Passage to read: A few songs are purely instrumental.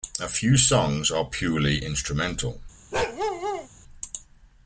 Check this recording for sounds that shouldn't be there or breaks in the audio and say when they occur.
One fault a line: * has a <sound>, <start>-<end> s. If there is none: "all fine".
* has a bark, 2.9-3.7 s